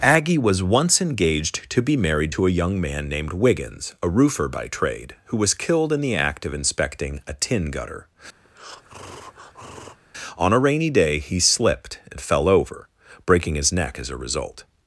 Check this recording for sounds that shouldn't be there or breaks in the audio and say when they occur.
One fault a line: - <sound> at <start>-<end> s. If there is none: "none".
- breath at 8.4-10.0 s